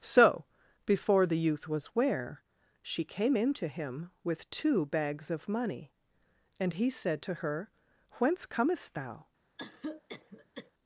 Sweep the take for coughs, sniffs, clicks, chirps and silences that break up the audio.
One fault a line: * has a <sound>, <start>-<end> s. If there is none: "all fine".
* has a cough, 9.6-10.7 s